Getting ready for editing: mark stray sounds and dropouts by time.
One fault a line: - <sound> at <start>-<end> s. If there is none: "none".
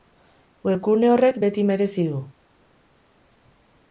none